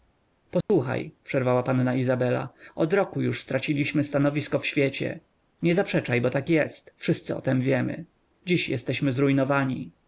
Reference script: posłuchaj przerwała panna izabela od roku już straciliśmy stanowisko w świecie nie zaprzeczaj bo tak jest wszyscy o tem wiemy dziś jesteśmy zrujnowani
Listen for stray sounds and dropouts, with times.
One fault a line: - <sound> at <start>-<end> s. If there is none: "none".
- dropout at 0.6-0.7 s